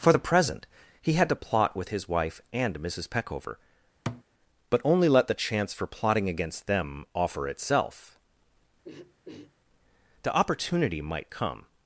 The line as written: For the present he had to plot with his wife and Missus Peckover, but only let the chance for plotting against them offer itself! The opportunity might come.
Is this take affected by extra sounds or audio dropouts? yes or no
yes